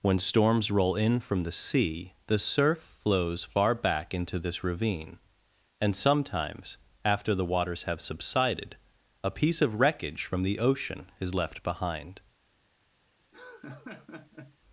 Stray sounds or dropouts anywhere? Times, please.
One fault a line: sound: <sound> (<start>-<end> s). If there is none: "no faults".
sound: laugh (13.3-14.6 s)